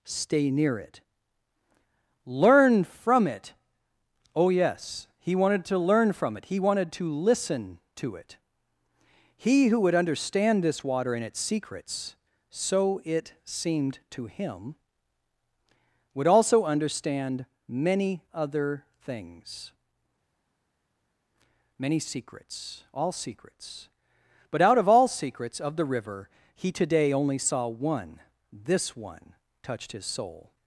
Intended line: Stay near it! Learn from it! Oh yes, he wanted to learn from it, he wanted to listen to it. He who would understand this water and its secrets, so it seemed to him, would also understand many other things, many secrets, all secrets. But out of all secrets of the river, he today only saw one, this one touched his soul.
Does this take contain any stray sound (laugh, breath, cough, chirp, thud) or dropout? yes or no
no